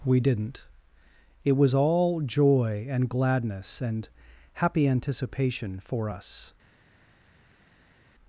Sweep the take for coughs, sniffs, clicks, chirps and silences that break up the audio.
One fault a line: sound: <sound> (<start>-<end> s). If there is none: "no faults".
no faults